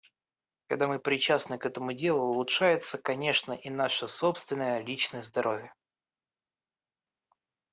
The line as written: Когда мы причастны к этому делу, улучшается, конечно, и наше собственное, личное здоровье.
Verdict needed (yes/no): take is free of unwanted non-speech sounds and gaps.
yes